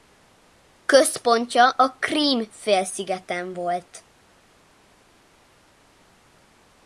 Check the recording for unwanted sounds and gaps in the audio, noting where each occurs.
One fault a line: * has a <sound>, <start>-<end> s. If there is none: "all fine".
all fine